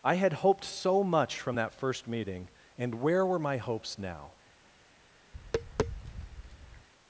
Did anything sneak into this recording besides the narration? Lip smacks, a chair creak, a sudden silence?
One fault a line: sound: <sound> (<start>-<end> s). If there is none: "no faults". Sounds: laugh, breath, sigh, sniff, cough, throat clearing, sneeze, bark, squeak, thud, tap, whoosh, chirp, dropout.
sound: tap (5.3-6.9 s)